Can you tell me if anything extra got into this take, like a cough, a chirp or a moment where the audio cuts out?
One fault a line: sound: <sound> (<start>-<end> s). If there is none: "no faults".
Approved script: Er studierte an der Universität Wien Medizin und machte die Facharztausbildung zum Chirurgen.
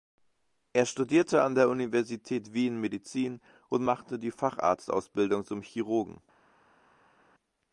no faults